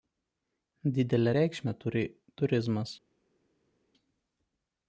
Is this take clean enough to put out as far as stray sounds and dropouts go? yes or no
yes